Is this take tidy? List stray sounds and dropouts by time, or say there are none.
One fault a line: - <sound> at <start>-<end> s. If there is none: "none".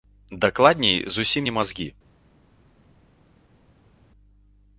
none